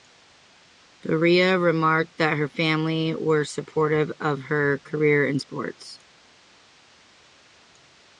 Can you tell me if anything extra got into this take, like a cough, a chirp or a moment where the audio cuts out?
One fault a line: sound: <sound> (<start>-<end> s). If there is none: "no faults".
no faults